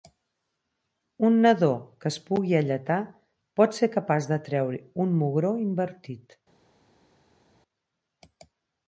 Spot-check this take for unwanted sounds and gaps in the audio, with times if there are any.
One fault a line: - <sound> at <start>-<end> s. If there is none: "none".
none